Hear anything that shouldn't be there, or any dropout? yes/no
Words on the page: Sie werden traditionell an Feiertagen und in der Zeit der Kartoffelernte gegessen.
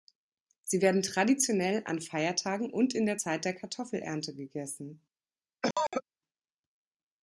yes